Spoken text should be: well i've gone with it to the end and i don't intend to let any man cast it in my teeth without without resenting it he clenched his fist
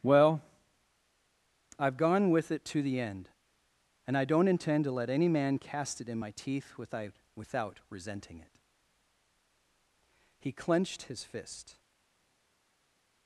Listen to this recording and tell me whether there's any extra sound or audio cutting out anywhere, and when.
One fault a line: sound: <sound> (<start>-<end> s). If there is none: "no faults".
no faults